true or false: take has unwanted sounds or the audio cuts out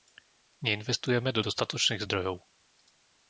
false